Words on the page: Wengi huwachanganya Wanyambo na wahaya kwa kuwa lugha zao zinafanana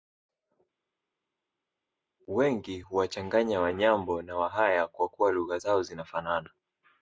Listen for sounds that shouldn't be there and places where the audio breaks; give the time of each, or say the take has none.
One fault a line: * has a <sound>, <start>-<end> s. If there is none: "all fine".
all fine